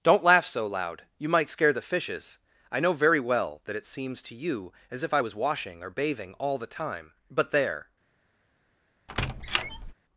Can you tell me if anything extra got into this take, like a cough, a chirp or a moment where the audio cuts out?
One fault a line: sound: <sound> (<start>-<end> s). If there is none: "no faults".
sound: squeak (9.1-9.9 s)